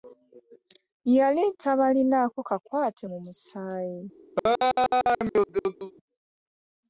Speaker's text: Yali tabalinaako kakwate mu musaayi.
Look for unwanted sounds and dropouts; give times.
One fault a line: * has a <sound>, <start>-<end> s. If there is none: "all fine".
* has a laugh, 4.4-5.9 s